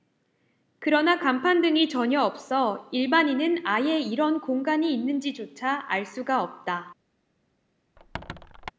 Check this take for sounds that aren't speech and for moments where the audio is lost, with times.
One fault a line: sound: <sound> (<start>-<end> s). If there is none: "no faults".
sound: squeak (8.0-8.7 s)